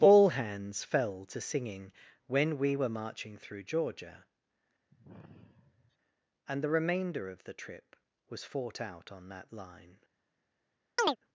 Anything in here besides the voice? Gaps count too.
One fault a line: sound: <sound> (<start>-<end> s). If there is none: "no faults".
sound: sigh (4.9-6.0 s)
sound: chirp (11.0-11.2 s)